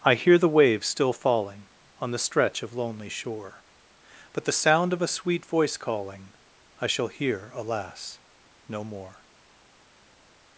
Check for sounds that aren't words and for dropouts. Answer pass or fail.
pass